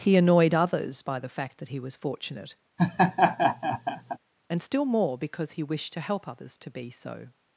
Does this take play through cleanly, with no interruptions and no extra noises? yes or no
no